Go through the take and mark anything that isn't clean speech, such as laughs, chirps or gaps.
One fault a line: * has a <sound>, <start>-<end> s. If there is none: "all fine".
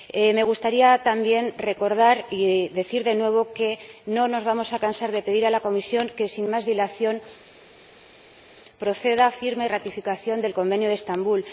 all fine